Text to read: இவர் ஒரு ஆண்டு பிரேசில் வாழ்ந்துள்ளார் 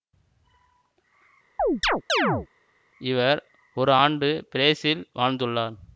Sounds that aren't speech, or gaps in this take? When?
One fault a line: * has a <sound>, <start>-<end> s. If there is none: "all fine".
* has a chirp, 1.6-2.5 s